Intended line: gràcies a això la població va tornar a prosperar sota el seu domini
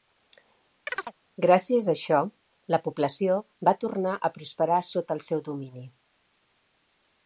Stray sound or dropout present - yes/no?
yes